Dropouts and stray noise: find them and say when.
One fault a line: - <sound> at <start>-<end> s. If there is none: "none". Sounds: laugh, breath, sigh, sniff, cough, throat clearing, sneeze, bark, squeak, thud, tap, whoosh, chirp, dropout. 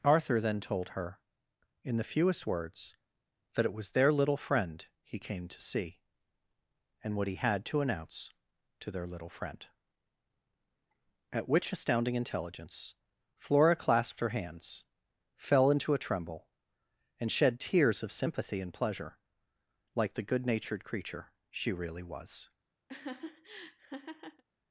- laugh at 22.9-24.4 s